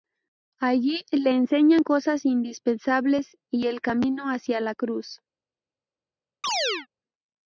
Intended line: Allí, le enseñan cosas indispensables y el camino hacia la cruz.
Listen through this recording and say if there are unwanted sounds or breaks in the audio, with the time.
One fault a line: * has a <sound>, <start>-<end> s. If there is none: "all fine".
* has a chirp, 6.4-6.9 s